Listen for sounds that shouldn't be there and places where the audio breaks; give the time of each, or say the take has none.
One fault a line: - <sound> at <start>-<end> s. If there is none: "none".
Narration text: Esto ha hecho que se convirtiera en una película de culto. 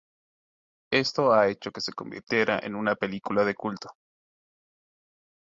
none